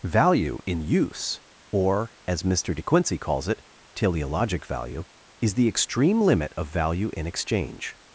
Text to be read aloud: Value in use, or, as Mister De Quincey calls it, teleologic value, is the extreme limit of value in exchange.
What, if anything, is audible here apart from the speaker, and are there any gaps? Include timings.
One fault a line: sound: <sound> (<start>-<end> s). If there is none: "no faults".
no faults